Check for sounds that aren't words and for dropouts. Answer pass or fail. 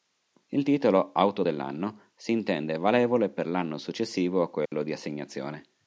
fail